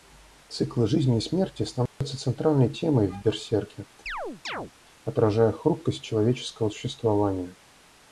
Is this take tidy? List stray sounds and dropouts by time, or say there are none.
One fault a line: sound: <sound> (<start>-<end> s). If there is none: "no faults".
sound: dropout (1.9-2.0 s)
sound: chirp (4.1-4.7 s)